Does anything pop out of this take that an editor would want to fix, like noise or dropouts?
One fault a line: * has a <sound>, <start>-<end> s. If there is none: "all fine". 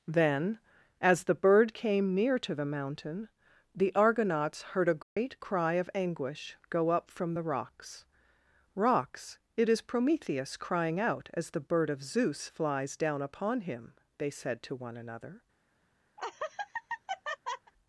* has a dropout, 5.0-5.2 s
* has a laugh, 16.2-17.7 s